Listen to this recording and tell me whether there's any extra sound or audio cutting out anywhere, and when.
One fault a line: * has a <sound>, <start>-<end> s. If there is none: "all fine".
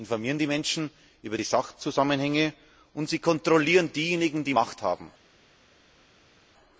all fine